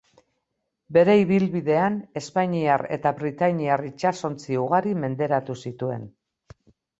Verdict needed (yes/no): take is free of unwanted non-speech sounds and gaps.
yes